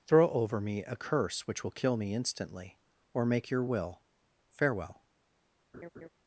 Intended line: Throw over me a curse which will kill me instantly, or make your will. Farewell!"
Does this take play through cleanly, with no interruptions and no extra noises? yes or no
no